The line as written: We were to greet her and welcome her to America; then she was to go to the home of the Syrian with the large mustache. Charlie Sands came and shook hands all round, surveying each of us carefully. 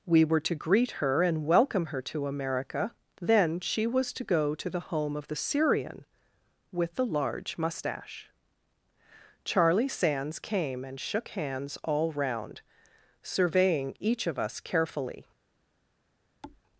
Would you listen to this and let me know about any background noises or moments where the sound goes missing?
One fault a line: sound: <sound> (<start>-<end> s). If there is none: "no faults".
sound: thud (16.4-16.6 s)